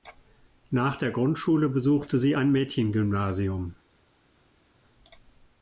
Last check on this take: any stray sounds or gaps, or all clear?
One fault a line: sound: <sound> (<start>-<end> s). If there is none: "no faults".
no faults